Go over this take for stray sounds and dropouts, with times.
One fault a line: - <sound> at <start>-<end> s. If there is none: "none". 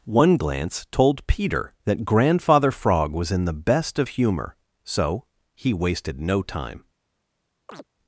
- chirp at 7.7-7.9 s